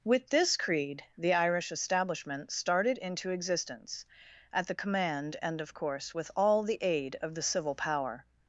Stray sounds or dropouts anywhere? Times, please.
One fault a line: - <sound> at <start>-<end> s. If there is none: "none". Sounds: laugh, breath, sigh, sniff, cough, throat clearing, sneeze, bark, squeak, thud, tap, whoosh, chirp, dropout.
none